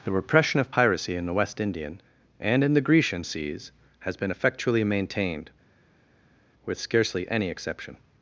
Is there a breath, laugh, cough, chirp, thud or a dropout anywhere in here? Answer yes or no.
no